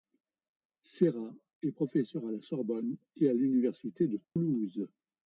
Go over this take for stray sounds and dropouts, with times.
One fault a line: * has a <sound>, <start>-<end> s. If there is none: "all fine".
* has a dropout, 4.2-4.4 s